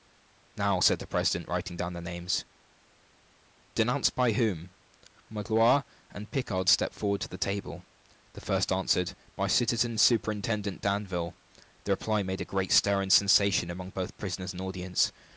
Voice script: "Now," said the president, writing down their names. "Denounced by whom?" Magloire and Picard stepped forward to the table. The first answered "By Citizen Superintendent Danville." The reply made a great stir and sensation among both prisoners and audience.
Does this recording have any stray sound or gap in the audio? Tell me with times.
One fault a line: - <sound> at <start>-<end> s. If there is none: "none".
none